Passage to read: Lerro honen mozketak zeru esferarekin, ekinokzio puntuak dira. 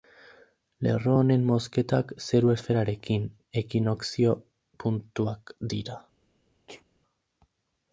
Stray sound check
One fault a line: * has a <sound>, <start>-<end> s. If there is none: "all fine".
* has a sneeze, 6.7-6.8 s